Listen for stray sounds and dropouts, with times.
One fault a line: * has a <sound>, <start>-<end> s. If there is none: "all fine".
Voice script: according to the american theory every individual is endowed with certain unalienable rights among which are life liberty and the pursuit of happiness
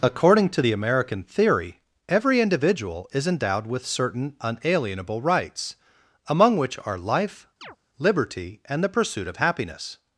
* has a chirp, 7.6-7.8 s